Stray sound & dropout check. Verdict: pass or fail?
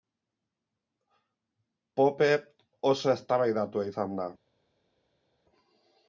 pass